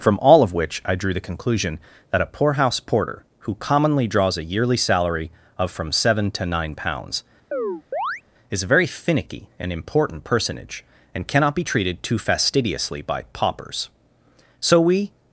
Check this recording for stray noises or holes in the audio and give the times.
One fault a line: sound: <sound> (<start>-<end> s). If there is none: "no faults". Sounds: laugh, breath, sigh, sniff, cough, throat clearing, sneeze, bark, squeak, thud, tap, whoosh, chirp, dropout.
sound: chirp (7.5-8.2 s)